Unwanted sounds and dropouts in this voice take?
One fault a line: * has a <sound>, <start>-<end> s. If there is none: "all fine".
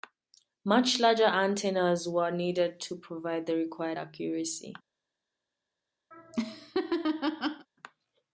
* has a laugh, 6.1-7.7 s